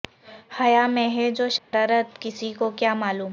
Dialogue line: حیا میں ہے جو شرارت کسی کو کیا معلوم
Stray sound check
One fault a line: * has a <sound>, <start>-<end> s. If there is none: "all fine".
* has a dropout, 1.6-1.7 s